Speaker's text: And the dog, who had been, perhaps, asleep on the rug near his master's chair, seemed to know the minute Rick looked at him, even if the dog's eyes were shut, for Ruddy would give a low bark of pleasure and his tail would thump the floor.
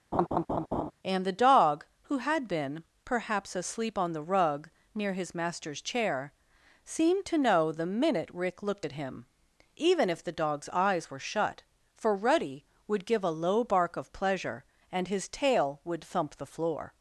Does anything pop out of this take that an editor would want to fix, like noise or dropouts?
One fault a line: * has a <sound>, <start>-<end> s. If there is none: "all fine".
* has a laugh, 0.1-0.9 s